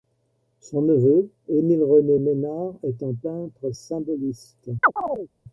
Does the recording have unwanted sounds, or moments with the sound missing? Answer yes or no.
yes